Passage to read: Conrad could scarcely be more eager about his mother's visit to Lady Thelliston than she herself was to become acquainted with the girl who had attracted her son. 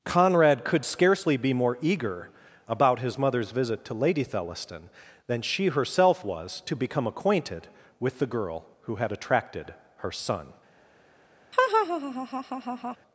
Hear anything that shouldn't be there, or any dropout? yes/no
yes